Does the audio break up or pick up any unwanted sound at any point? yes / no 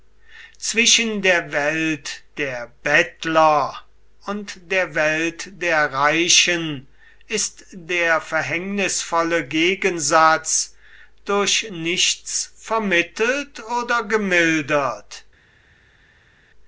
no